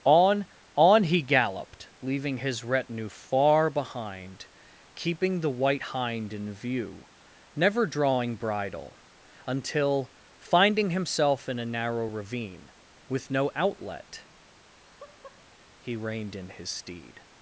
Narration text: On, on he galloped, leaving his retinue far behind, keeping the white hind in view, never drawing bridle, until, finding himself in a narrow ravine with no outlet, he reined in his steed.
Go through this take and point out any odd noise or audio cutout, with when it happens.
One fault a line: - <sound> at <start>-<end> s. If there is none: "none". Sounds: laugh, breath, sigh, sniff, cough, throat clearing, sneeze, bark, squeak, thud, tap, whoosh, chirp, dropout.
- laugh at 14.5-15.5 s